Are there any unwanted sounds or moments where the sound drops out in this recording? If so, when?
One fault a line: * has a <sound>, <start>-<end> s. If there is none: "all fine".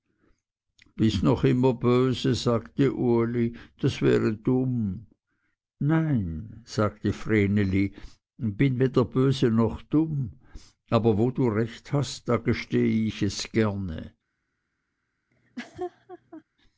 * has a laugh, 15.3-16.4 s